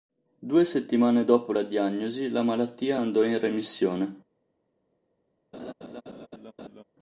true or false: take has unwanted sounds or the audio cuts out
true